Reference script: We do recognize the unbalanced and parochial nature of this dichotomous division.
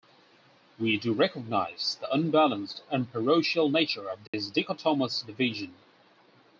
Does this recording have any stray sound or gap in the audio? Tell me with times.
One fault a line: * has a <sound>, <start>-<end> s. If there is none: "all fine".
* has a dropout, 4.3-4.3 s